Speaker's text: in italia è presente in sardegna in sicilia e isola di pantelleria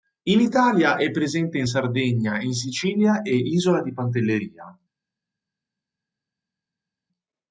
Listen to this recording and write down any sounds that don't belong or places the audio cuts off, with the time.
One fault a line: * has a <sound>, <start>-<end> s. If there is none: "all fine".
all fine